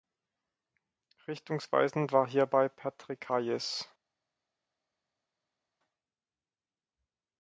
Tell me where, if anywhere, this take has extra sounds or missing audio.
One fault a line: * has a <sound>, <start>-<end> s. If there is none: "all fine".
all fine